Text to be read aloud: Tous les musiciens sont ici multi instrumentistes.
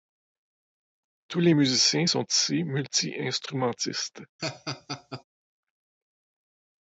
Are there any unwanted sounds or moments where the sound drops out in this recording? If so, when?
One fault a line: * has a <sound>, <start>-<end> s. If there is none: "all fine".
* has a laugh, 4.4-5.2 s